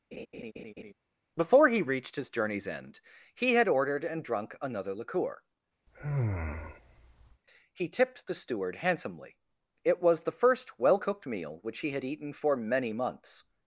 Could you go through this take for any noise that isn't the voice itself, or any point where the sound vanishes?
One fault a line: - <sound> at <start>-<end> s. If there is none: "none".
- laugh at 0.1-0.9 s
- sigh at 5.9-7.4 s